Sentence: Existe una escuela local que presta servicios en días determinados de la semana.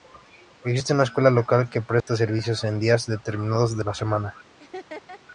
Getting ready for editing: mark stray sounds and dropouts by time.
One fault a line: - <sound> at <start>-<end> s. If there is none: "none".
- dropout at 2.0-2.1 s
- laugh at 4.6-5.2 s